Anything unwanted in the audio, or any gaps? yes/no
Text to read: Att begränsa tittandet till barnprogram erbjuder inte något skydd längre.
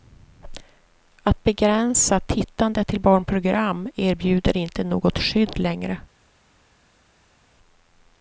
no